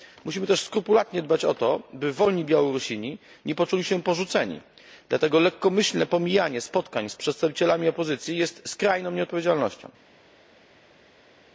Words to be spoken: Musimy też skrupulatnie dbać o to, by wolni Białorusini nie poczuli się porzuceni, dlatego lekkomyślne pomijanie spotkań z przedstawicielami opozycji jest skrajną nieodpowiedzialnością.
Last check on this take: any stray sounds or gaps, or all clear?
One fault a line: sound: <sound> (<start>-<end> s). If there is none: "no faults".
no faults